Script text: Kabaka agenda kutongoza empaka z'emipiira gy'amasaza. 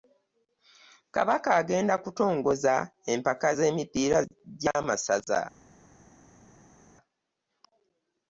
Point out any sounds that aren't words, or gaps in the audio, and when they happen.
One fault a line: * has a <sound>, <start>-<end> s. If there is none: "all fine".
all fine